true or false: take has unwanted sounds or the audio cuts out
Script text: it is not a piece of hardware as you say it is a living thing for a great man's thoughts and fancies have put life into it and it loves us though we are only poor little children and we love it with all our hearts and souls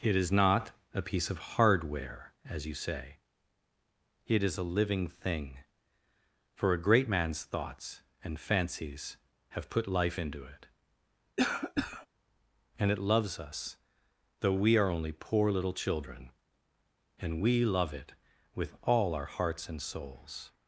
true